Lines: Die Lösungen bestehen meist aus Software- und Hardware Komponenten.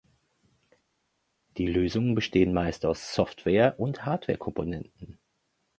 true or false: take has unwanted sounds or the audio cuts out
false